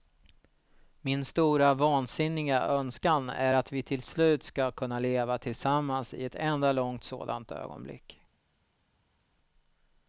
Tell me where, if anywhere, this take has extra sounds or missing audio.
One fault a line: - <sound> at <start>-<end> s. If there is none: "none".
none